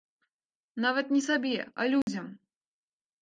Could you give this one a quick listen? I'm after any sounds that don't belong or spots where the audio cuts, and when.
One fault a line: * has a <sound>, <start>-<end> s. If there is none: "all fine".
* has a dropout, 2.0-2.1 s